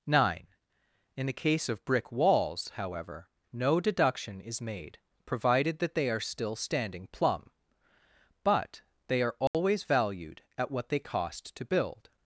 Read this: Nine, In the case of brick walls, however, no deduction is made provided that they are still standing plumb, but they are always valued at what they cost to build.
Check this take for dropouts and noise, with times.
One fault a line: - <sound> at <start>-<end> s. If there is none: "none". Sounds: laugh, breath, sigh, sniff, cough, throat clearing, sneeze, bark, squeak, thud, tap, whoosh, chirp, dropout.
- dropout at 9.5-9.5 s